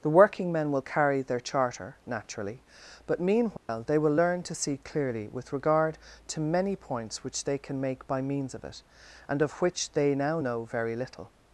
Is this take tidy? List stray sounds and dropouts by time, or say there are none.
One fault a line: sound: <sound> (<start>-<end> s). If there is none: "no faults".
sound: dropout (3.6-3.7 s)